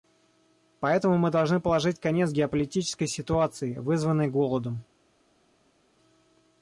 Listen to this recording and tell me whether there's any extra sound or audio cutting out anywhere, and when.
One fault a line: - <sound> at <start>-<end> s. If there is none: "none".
none